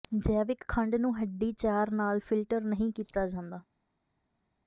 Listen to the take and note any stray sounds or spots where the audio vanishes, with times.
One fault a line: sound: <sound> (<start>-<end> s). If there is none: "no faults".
no faults